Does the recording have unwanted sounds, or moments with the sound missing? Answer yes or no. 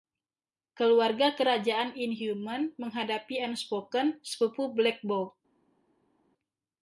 no